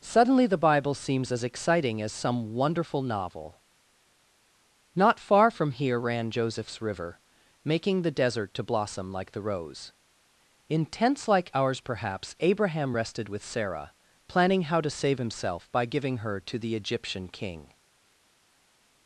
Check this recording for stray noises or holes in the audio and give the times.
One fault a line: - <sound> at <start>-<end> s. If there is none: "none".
none